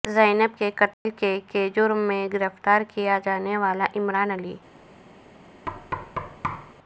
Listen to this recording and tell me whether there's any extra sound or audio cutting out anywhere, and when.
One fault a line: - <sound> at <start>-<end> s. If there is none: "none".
- dropout at 0.9-1.1 s
- thud at 5.7-6.7 s